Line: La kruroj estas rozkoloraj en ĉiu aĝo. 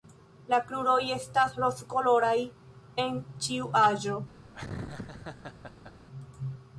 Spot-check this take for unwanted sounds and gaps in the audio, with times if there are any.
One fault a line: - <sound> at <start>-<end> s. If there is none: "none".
- laugh at 4.5-5.9 s